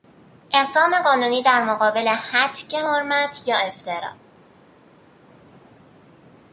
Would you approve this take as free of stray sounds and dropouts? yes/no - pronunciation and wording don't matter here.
yes